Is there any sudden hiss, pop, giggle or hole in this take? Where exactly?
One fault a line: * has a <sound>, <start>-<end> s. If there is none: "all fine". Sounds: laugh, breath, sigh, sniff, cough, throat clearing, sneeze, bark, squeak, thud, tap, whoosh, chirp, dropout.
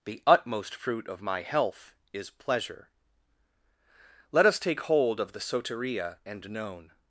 all fine